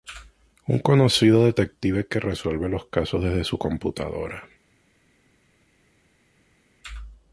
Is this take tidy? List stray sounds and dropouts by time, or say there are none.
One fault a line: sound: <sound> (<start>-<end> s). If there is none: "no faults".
no faults